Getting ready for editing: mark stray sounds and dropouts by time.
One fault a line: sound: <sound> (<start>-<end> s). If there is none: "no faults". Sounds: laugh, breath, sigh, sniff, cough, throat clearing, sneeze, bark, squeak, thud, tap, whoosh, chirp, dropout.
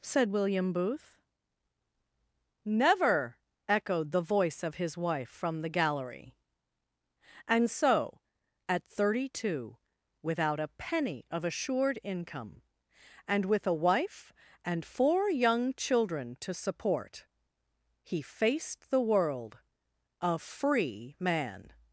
no faults